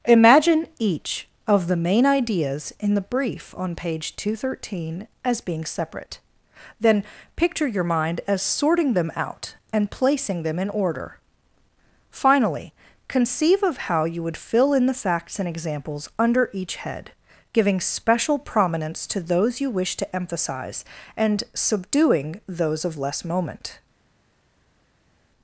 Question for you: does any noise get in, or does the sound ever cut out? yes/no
no